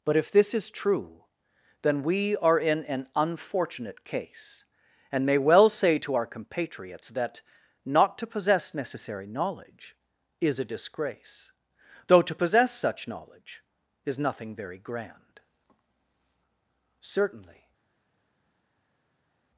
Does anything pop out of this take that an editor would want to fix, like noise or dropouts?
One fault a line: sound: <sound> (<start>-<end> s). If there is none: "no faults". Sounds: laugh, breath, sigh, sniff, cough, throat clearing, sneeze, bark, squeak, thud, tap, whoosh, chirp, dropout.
no faults